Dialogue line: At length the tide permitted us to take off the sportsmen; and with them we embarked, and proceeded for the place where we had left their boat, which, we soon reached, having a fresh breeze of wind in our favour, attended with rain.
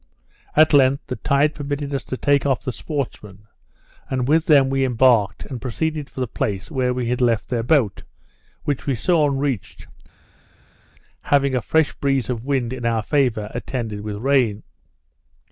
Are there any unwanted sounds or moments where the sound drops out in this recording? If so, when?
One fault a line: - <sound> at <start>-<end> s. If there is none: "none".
none